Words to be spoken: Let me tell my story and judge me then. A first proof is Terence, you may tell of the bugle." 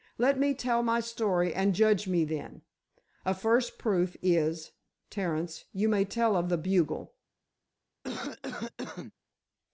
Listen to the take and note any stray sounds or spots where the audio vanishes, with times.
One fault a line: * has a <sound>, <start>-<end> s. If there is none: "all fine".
* has a cough, 8.0-9.1 s